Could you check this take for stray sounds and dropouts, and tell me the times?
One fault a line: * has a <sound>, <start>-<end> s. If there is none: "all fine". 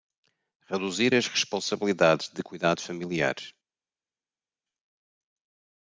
all fine